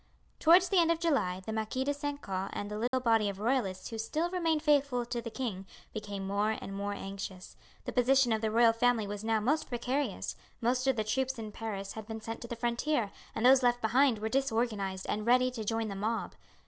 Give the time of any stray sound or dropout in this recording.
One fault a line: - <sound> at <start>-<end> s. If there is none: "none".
- dropout at 2.9-2.9 s